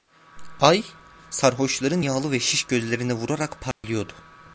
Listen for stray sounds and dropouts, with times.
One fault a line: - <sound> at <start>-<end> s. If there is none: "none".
- dropout at 3.7-3.8 s